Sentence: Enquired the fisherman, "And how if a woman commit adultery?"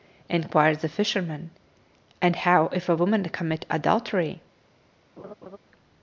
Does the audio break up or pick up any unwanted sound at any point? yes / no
yes